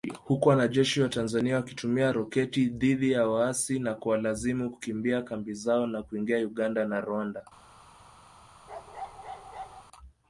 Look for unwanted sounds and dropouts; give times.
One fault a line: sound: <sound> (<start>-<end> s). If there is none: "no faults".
sound: bark (8.7-9.8 s)